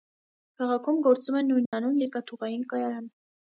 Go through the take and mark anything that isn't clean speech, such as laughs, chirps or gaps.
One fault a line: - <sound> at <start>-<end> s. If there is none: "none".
- dropout at 1.7-1.7 s